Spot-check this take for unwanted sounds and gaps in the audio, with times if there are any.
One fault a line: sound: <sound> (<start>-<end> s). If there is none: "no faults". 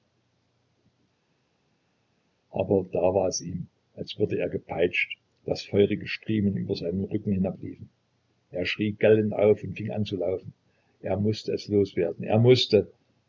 no faults